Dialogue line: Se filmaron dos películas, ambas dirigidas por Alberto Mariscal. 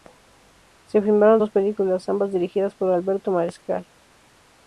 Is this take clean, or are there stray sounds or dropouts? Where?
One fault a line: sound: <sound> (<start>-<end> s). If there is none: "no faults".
no faults